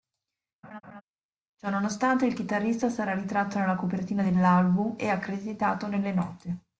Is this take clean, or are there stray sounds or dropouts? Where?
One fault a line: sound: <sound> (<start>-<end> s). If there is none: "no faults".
sound: laugh (0.6-1.0 s)